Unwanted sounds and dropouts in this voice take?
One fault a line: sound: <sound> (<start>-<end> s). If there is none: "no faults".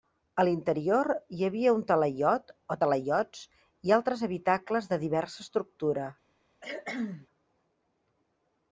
sound: cough (6.6-7.3 s)